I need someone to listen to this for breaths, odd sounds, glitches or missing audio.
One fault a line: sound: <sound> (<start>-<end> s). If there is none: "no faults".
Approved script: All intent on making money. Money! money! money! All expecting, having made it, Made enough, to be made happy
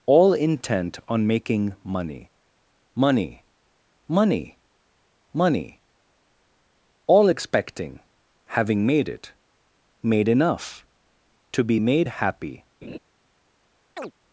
sound: laugh (12.8-13.0 s)
sound: chirp (14.0-14.1 s)